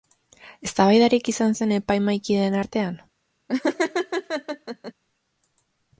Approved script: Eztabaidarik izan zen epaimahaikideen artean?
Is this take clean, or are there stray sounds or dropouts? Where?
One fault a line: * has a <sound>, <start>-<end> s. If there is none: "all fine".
* has a laugh, 3.5-4.9 s